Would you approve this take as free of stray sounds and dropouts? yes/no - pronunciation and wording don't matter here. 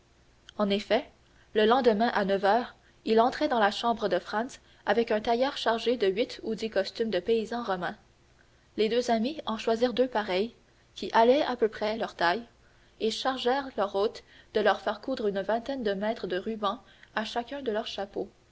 yes